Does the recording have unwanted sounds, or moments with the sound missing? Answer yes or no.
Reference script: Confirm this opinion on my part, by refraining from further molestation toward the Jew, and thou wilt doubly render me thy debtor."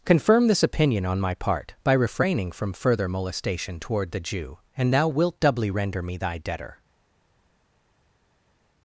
no